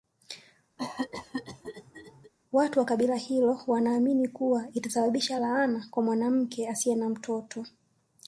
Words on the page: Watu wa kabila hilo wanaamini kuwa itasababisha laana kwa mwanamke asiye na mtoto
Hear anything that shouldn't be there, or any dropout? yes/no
yes